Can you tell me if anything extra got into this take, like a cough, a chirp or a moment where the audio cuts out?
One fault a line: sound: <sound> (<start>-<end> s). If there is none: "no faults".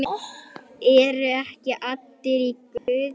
sound: dropout (2.8-2.9 s)